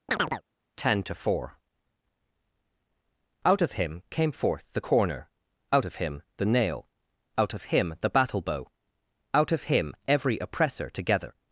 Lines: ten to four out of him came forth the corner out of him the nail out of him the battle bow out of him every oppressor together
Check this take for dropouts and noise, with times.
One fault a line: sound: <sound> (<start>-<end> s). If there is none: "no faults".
sound: chirp (0.1-0.4 s)